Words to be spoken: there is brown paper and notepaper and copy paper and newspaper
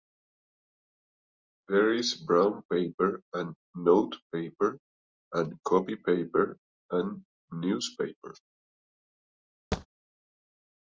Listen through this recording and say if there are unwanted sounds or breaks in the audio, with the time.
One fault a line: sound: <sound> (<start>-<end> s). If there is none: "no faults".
sound: thud (9.7-9.9 s)